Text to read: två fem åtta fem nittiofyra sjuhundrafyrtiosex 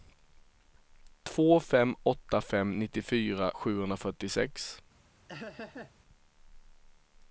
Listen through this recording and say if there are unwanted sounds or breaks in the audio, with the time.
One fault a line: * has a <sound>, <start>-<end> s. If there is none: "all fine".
* has a laugh, 5.3-5.9 s